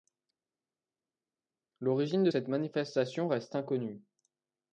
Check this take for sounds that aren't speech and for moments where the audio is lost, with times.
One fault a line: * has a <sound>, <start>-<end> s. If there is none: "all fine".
all fine